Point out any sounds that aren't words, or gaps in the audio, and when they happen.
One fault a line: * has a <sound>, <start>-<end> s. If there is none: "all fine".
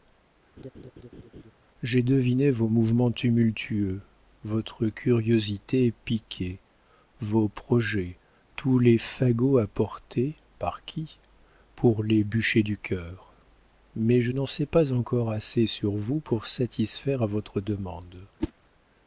* has a laugh, 0.6-1.5 s
* has a whoosh, 18.4-18.5 s